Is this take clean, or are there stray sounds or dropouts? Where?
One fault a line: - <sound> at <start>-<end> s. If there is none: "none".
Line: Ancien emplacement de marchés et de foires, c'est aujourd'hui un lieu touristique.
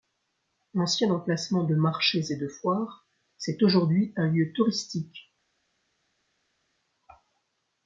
none